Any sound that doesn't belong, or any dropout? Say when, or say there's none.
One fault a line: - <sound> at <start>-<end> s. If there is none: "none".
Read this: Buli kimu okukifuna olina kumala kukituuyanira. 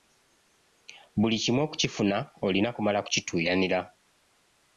none